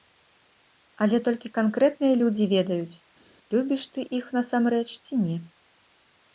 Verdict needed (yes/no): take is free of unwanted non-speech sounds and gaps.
yes